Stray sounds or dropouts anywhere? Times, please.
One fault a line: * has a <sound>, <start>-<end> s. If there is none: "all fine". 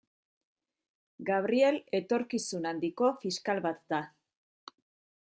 all fine